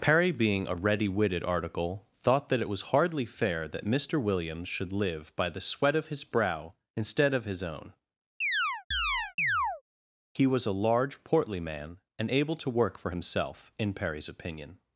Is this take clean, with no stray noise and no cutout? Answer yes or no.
no